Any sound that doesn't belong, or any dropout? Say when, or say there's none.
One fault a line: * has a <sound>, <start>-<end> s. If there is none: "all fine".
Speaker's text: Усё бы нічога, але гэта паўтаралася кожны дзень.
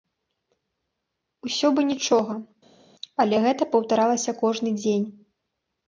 all fine